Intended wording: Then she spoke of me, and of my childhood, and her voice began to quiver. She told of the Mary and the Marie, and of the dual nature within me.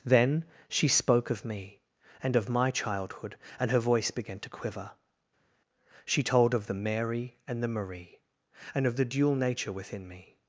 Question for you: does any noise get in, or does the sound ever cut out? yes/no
no